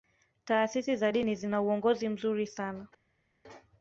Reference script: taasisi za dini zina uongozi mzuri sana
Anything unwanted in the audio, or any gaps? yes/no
no